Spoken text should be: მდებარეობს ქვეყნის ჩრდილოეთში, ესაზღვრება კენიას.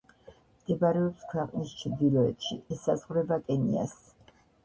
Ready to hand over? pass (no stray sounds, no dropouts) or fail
pass